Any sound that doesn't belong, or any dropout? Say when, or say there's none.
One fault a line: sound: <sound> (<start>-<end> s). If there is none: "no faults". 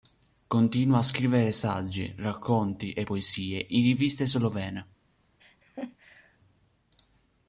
sound: laugh (5.4-6.4 s)